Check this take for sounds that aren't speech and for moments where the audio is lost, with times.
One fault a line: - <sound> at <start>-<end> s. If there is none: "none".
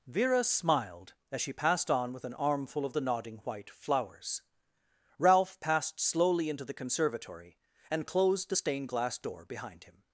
none